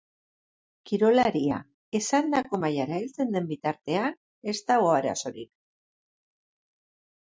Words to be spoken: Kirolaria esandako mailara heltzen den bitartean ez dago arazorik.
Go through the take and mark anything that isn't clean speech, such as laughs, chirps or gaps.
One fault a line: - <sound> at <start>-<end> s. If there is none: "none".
none